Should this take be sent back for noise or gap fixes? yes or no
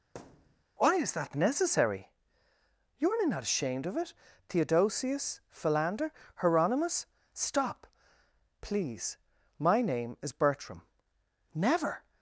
yes